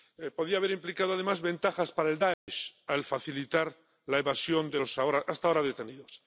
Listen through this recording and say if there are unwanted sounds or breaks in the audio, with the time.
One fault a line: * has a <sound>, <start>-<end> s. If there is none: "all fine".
* has a dropout, 2.3-2.5 s